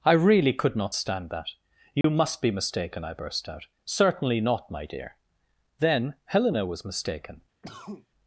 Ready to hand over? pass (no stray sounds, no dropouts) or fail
fail